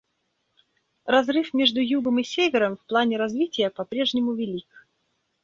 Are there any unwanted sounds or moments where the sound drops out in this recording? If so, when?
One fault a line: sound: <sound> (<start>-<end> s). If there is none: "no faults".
no faults